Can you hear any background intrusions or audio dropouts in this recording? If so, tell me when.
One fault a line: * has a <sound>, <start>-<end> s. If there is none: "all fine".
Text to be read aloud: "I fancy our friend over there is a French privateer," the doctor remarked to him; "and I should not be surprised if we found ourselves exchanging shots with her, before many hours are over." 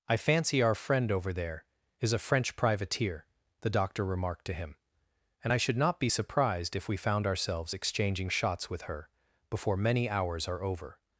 all fine